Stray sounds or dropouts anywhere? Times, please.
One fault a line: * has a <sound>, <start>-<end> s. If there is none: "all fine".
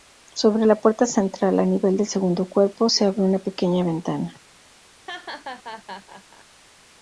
* has a laugh, 5.1-6.5 s